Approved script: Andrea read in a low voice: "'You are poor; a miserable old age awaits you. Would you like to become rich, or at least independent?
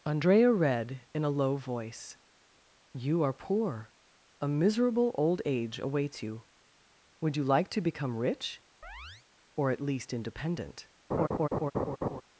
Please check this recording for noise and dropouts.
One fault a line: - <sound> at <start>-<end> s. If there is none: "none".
- chirp at 8.8-9.3 s
- laugh at 11.1-12.2 s